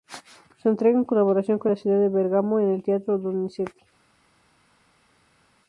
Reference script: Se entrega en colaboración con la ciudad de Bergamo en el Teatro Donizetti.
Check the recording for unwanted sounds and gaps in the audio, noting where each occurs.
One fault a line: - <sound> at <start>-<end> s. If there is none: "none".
none